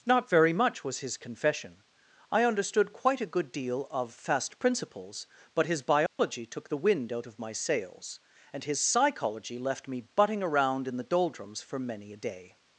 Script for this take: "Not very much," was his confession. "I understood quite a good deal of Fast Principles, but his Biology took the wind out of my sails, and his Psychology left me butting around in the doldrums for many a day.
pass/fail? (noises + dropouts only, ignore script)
fail